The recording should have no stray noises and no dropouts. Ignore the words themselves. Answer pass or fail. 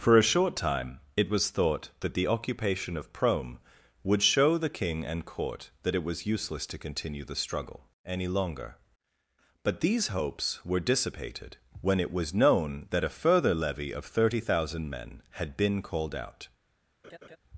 fail